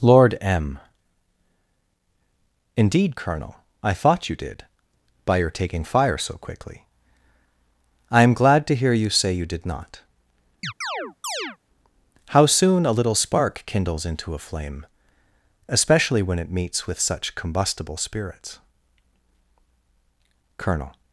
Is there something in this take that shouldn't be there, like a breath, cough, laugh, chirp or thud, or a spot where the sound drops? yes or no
yes